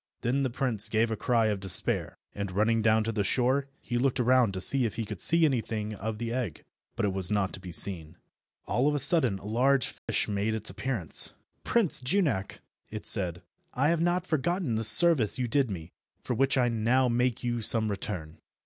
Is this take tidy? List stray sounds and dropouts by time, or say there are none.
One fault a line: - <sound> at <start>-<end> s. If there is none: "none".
- dropout at 10.0-10.1 s